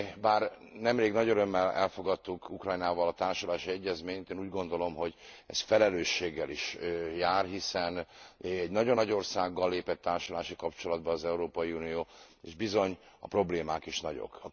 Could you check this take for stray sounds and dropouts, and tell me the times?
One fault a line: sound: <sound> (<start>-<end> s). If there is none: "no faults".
no faults